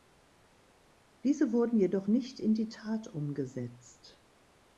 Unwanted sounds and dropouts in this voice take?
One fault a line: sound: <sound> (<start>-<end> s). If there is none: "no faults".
no faults